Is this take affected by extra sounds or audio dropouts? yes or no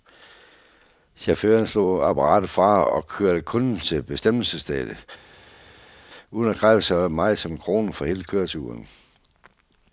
no